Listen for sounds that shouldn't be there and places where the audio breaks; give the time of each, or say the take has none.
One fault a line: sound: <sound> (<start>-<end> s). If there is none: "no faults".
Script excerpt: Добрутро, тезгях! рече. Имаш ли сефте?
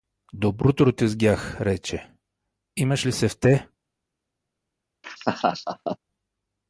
sound: laugh (5.0-6.0 s)